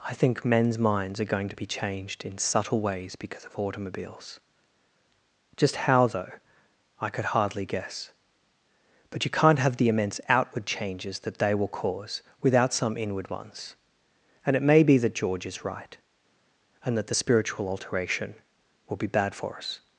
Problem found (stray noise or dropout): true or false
false